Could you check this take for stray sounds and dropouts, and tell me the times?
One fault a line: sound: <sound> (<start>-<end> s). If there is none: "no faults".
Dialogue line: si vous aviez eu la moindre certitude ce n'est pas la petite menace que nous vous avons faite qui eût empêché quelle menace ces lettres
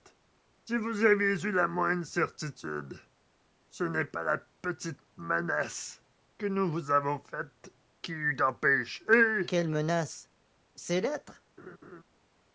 sound: laugh (11.6-12.0 s)